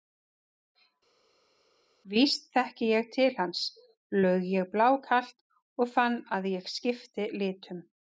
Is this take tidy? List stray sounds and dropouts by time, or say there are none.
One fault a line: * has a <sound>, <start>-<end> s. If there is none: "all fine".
all fine